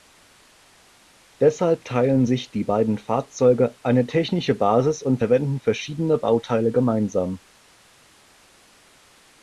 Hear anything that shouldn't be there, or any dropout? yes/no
no